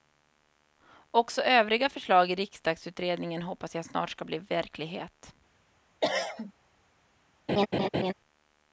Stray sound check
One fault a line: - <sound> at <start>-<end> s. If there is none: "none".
- cough at 6.0-6.5 s
- laugh at 7.5-8.1 s